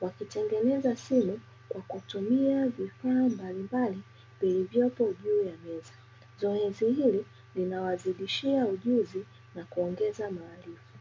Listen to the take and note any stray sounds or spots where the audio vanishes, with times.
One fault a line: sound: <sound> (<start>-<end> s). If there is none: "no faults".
no faults